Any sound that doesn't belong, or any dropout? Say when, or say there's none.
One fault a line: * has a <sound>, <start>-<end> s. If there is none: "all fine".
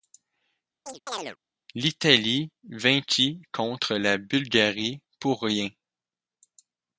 * has a chirp, 0.9-1.4 s